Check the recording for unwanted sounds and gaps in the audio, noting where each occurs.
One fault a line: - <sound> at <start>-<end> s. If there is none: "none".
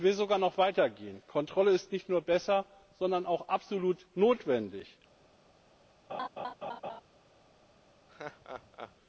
- laugh at 6.1-7.0 s
- laugh at 8.1-8.9 s